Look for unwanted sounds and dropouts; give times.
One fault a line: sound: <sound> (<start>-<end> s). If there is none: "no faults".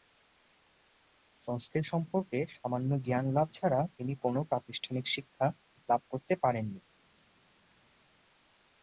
no faults